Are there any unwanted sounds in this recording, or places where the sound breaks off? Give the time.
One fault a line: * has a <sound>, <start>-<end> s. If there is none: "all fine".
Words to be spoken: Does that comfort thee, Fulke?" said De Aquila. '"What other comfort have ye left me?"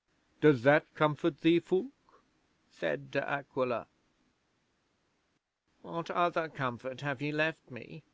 all fine